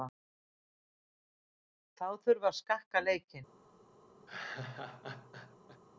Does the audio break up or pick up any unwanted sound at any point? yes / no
yes